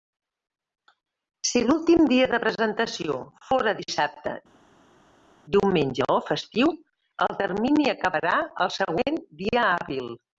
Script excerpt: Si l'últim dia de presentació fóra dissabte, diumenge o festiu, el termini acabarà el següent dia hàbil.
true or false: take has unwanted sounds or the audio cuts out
false